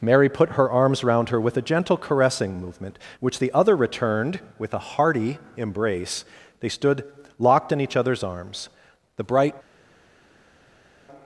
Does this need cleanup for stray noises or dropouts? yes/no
no